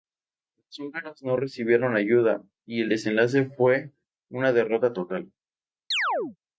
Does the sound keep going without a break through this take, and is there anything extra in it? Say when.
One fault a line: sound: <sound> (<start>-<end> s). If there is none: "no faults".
sound: chirp (5.9-6.4 s)